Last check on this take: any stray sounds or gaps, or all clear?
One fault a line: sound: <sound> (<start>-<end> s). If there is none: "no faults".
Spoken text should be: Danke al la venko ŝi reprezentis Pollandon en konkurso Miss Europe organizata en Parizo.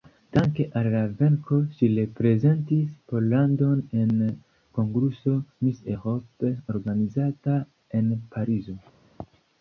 no faults